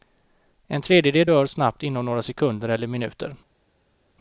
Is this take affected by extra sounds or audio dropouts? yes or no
no